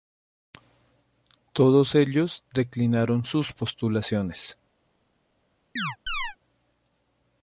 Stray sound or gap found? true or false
true